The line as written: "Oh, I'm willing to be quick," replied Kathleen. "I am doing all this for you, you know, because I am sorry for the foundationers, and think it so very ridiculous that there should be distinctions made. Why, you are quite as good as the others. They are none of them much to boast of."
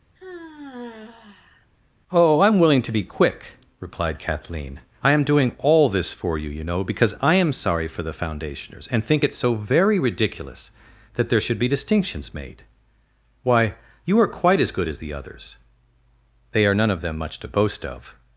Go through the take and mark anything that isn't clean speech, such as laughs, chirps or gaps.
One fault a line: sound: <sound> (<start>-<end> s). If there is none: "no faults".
sound: sigh (0.2-1.7 s)